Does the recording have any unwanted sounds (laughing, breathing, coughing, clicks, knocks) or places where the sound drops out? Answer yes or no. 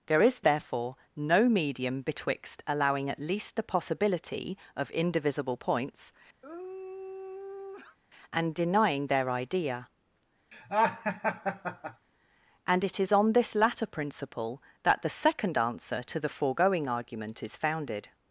yes